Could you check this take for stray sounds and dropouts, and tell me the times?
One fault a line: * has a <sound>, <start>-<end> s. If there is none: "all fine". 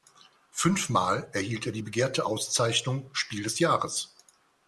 all fine